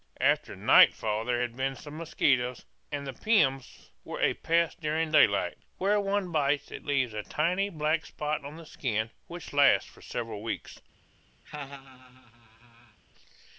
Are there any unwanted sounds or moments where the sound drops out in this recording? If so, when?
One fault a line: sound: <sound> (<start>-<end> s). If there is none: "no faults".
sound: laugh (11.4-13.0 s)